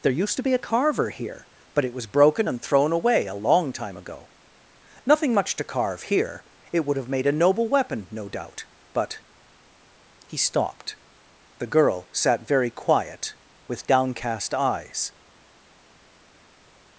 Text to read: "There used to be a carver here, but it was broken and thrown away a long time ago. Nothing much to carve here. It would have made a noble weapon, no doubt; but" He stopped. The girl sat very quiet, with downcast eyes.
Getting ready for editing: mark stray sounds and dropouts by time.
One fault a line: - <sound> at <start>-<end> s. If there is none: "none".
none